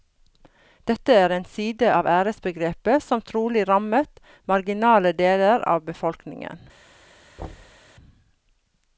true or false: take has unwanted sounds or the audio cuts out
true